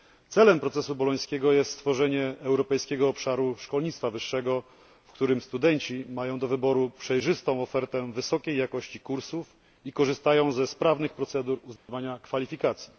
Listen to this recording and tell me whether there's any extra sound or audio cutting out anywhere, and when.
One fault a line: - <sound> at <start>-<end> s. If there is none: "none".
- dropout at 11.8-11.9 s